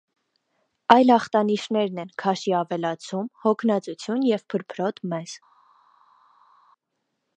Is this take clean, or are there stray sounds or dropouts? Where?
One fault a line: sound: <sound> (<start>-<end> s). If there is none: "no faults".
no faults